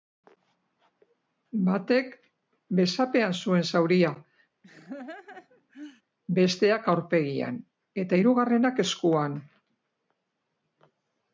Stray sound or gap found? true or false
true